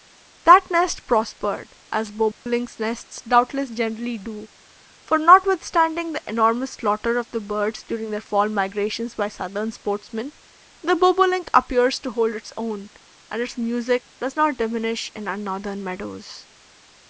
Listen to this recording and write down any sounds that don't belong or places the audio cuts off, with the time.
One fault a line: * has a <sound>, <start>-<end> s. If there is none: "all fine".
* has a dropout, 2.3-2.5 s